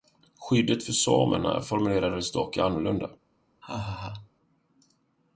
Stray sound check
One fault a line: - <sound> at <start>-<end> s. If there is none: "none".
- laugh at 3.6-4.3 s